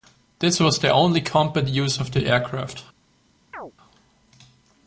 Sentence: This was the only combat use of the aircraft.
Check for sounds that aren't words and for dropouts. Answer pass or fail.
fail